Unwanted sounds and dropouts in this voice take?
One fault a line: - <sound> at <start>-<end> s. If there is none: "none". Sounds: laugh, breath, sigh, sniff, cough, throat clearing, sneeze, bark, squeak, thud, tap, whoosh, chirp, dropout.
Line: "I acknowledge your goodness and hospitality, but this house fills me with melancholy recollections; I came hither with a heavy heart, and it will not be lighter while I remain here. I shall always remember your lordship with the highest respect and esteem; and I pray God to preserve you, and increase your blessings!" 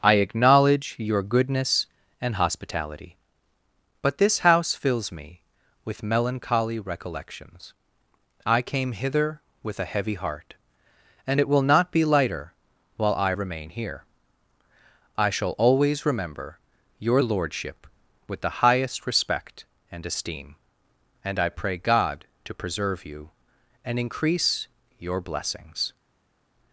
none